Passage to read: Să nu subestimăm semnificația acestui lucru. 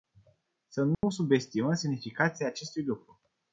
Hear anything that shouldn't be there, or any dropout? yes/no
yes